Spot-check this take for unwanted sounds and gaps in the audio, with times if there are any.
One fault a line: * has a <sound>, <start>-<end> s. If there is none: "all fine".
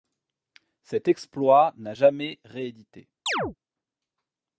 * has a chirp, 3.3-3.6 s